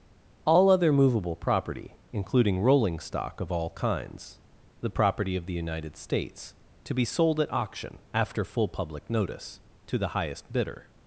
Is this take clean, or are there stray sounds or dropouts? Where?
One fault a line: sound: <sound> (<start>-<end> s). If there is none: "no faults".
no faults